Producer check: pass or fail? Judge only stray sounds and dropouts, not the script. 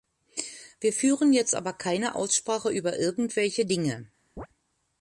fail